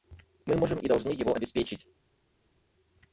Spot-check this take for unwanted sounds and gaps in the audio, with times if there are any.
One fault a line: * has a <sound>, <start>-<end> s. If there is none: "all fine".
all fine